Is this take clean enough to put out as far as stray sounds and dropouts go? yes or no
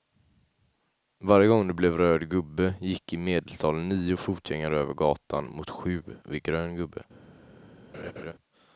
no